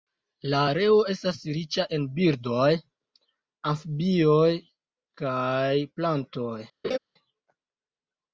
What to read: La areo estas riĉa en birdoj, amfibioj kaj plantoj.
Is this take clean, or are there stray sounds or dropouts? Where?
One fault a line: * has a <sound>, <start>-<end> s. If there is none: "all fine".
* has a laugh, 6.8-7.0 s